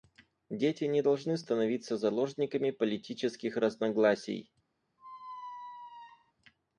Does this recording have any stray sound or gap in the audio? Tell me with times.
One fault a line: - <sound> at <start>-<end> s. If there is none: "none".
- squeak at 5.0-6.3 s